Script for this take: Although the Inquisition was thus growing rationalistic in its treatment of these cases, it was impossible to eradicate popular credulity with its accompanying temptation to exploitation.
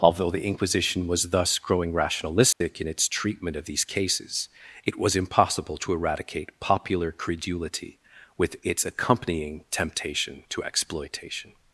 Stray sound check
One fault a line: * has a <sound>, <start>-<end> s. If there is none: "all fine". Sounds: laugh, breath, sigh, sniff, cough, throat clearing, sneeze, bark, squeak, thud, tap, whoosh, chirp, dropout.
* has a dropout, 2.5-2.6 s